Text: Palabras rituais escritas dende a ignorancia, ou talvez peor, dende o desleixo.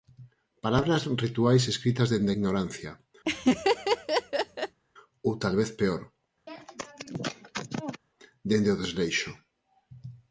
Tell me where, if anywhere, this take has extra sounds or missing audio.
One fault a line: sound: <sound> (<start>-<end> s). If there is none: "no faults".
sound: laugh (3.2-4.8 s)
sound: sneeze (6.5-8.0 s)